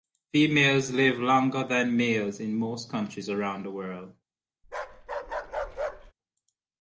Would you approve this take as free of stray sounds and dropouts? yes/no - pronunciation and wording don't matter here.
no